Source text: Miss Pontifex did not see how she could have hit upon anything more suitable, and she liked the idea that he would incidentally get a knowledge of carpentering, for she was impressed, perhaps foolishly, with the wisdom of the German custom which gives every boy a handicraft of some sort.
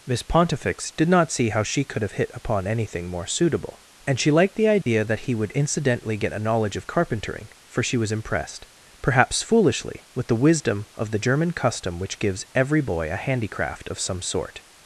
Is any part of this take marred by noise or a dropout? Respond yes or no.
yes